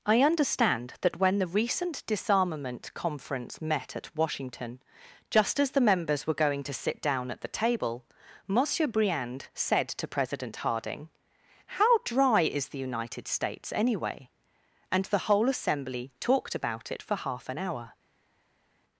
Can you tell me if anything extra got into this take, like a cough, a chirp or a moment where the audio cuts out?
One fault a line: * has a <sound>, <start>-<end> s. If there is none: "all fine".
all fine